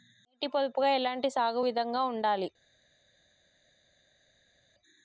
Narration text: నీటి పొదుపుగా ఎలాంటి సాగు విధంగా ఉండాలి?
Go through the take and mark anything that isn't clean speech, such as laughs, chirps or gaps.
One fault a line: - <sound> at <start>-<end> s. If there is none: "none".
none